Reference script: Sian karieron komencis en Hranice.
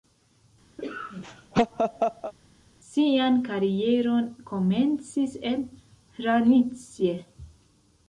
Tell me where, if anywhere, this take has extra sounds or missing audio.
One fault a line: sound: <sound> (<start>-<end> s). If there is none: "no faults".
sound: laugh (0.8-2.3 s)